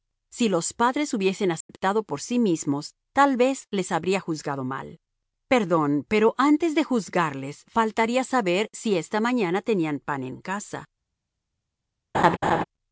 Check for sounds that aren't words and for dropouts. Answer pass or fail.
fail